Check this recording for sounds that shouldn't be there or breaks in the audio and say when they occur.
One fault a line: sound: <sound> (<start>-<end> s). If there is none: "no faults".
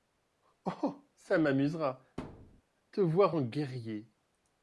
sound: thud (2.2-2.6 s)